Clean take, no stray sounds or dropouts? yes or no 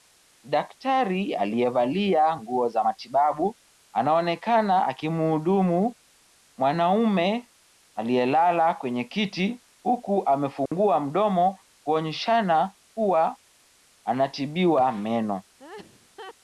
no